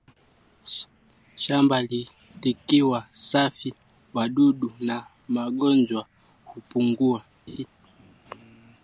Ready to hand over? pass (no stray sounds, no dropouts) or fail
fail